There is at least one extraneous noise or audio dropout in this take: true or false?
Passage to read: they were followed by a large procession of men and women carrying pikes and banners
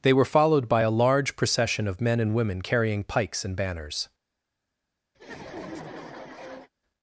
true